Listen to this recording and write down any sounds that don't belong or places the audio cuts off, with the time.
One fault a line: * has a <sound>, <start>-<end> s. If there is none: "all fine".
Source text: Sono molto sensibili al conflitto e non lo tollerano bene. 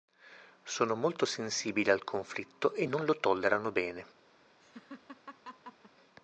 * has a laugh, 4.6-5.9 s